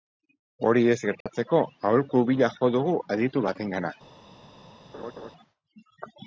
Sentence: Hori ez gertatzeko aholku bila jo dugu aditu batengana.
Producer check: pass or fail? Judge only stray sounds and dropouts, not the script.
fail